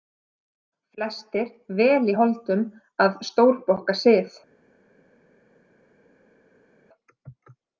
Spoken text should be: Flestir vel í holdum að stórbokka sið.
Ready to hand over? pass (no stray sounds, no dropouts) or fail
pass